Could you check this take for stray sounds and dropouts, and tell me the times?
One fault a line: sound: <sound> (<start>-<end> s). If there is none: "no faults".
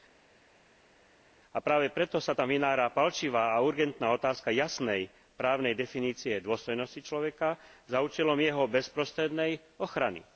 no faults